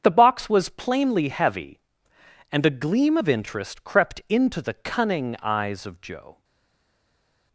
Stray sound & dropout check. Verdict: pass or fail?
pass